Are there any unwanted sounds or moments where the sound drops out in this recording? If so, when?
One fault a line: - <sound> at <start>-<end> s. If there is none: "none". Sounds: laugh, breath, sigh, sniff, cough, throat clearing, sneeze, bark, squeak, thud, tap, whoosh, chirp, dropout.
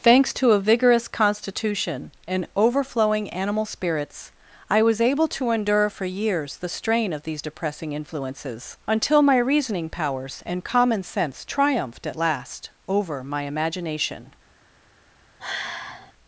- sigh at 15.4-16.1 s